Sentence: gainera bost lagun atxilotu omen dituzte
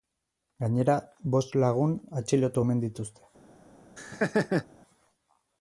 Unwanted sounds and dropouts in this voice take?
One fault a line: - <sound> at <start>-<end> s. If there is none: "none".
- laugh at 4.0-4.7 s